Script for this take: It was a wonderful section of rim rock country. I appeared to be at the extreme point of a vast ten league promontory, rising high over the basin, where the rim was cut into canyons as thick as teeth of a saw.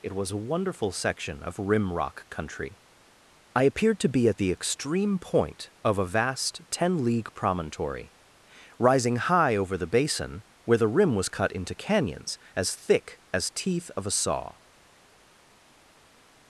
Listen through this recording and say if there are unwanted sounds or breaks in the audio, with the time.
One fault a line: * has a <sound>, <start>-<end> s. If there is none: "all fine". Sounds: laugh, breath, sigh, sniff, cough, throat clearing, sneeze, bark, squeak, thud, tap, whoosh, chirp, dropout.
all fine